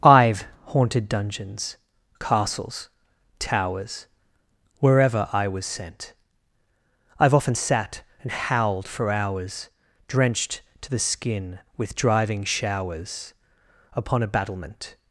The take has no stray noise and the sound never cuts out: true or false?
true